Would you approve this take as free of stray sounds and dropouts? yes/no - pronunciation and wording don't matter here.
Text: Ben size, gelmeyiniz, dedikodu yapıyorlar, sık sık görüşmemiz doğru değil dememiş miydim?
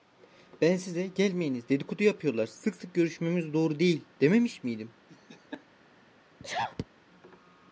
no